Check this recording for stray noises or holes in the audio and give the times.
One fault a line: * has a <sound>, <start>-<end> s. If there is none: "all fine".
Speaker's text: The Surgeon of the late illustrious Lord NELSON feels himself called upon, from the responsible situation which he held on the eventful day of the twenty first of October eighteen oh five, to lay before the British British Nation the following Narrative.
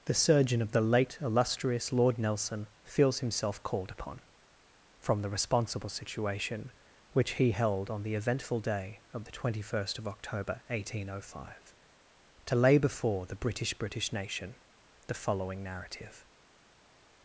all fine